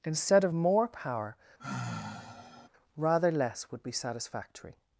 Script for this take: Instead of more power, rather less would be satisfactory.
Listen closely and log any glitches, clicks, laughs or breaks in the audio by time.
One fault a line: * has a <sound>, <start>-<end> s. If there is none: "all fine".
* has a sigh, 1.6-2.7 s